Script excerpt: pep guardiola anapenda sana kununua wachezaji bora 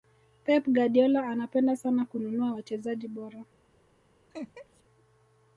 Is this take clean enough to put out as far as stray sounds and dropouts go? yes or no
no